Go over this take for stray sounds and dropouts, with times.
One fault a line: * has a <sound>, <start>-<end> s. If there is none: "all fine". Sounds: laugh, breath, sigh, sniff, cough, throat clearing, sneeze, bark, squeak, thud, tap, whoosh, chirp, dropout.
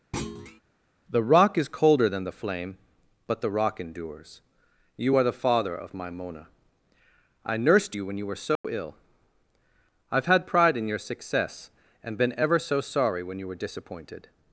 * has a thud, 0.1-0.6 s
* has a dropout, 8.6-8.6 s